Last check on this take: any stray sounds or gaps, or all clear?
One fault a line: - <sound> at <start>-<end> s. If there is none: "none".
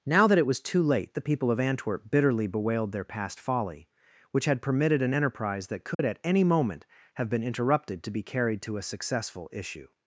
- dropout at 5.9-6.0 s